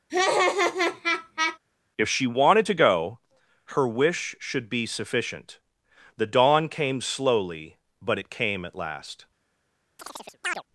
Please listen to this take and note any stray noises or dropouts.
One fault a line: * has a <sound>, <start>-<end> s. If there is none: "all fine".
* has a laugh, 0.1-1.6 s
* has a chirp, 10.0-10.6 s